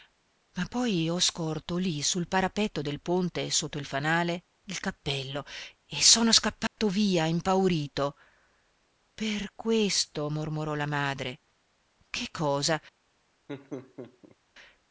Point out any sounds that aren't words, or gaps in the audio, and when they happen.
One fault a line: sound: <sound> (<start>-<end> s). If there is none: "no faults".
sound: dropout (6.7-6.8 s)
sound: laugh (13.5-14.4 s)